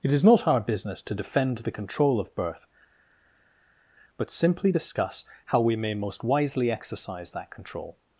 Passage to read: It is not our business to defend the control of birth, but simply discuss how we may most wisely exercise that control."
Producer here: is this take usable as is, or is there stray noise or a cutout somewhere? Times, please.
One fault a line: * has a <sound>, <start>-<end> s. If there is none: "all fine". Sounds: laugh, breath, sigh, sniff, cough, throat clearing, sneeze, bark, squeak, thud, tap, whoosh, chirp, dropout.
all fine